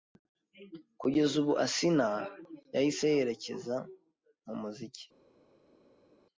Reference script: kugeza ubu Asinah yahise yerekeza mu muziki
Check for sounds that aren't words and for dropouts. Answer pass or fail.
pass